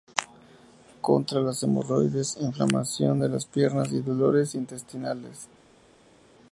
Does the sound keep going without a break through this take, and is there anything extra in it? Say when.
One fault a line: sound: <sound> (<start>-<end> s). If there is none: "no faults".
no faults